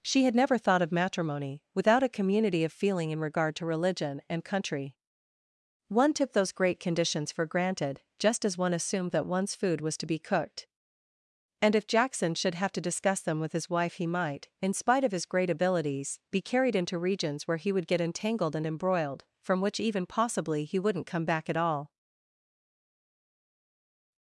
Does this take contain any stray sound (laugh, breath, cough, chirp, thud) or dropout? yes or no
no